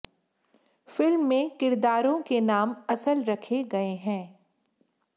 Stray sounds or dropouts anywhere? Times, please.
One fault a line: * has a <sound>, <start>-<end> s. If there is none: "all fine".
all fine